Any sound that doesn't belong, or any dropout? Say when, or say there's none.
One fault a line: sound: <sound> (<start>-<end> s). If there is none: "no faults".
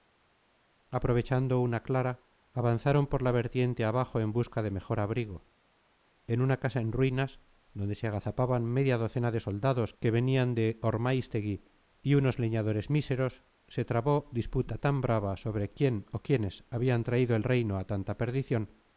no faults